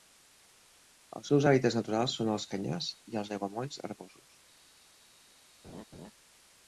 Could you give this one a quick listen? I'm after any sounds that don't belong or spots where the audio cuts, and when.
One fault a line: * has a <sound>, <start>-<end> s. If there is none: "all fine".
* has a laugh, 5.6-6.1 s